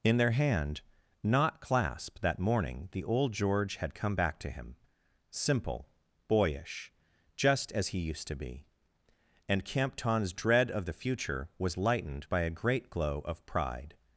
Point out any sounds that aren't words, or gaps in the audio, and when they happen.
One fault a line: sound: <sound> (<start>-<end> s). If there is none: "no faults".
no faults